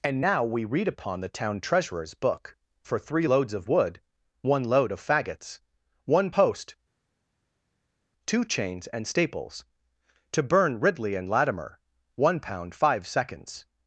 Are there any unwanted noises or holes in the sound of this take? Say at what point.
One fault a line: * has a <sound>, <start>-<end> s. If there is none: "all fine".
all fine